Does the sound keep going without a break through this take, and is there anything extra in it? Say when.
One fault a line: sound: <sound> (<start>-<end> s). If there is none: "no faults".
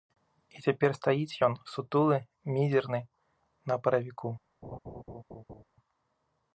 sound: laugh (4.6-5.6 s)